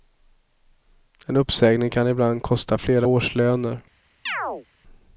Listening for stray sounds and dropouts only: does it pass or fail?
fail